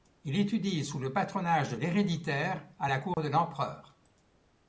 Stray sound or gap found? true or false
true